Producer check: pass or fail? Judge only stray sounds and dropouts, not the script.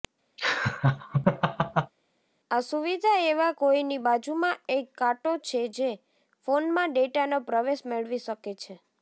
fail